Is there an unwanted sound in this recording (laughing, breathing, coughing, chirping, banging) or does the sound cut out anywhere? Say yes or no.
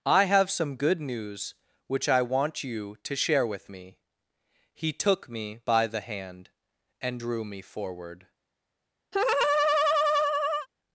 yes